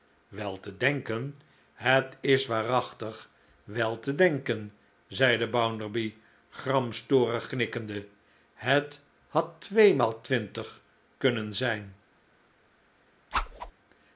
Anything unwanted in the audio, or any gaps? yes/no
yes